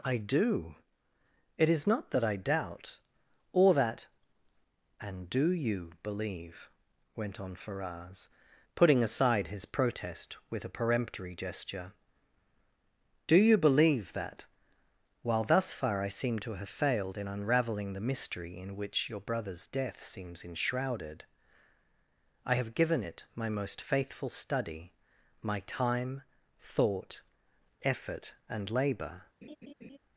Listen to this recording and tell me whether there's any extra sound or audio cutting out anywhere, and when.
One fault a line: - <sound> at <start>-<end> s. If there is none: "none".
- laugh at 29.4-30.0 s